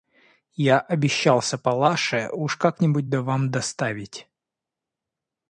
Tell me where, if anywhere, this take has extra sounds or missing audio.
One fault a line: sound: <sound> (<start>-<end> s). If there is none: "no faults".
no faults